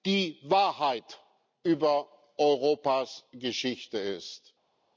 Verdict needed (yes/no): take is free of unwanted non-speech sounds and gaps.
yes